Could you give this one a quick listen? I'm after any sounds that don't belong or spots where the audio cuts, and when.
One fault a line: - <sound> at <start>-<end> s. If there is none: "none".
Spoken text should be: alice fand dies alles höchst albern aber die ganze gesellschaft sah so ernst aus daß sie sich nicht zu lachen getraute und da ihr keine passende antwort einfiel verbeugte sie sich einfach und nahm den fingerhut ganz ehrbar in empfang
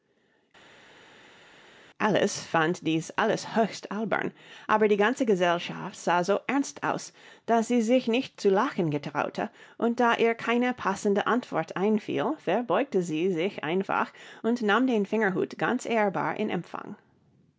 none